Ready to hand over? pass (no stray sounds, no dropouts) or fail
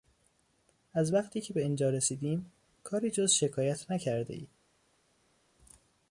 pass